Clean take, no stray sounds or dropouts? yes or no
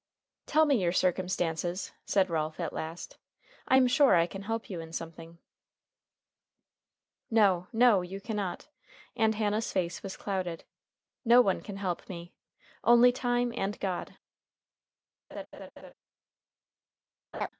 no